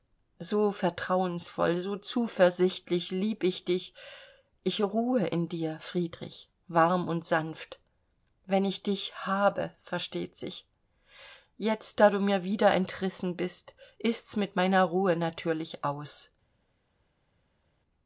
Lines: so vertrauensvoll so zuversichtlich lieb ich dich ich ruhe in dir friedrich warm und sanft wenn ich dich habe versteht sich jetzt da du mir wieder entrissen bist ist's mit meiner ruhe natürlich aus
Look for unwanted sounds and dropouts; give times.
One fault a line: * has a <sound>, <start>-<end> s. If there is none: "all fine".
all fine